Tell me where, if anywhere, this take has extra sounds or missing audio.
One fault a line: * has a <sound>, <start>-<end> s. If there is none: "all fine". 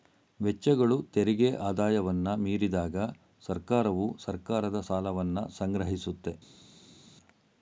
all fine